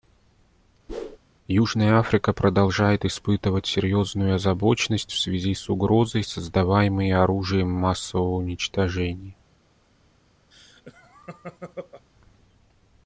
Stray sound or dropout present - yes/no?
yes